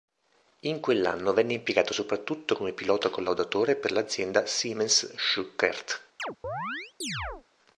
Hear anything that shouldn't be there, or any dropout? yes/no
yes